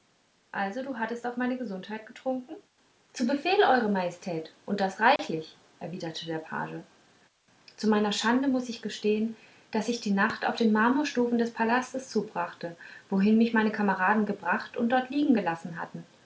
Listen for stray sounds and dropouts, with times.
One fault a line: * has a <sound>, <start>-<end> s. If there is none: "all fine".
* has a dropout, 5.2-5.2 s